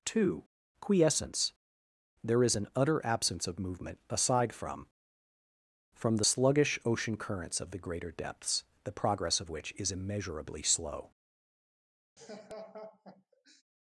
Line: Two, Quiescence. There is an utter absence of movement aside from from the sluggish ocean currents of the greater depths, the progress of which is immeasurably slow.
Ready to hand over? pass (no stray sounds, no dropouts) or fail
fail